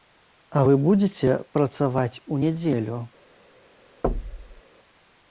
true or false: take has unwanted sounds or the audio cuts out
true